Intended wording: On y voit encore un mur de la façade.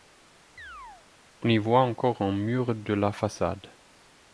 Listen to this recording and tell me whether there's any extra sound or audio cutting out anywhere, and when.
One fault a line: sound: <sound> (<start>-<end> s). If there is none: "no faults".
sound: chirp (0.6-1.1 s)